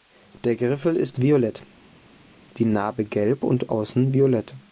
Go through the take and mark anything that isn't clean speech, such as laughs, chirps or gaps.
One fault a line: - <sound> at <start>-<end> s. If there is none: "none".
none